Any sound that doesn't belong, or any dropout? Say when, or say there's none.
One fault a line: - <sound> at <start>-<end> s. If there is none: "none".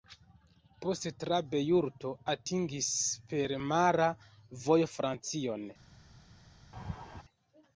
- laugh at 6.7-7.2 s